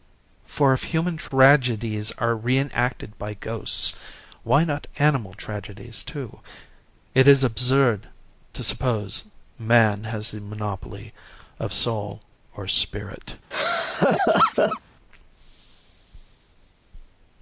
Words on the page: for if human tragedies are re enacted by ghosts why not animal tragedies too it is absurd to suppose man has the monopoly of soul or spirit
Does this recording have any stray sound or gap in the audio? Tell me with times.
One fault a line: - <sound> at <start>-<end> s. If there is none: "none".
- laugh at 13.5-14.8 s